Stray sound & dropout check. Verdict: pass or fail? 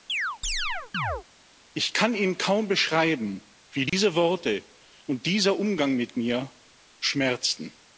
fail